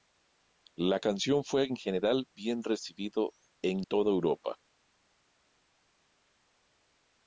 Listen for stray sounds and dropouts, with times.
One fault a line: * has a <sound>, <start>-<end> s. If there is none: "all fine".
all fine